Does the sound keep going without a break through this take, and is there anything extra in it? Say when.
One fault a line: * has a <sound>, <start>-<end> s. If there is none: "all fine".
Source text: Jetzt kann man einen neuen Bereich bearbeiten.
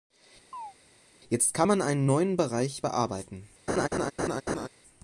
* has a chirp, 0.5-0.7 s
* has a laugh, 3.7-4.7 s